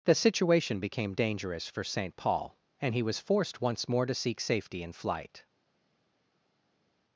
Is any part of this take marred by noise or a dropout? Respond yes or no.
no